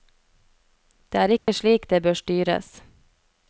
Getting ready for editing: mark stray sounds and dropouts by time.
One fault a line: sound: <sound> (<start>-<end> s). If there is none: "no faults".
sound: dropout (1.4-1.5 s)